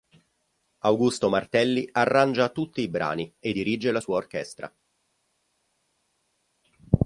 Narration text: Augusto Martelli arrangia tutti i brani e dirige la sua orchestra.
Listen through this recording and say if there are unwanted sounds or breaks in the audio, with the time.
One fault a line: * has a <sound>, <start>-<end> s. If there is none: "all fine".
all fine